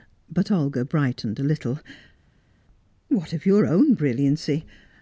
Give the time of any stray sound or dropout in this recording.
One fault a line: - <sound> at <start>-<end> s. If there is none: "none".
none